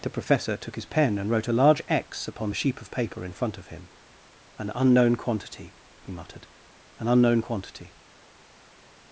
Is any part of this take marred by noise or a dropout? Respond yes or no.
no